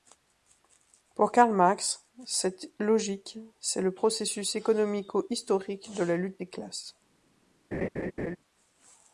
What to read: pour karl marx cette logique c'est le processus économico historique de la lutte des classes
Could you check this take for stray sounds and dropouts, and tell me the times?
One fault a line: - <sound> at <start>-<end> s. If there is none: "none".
- laugh at 7.7-8.4 s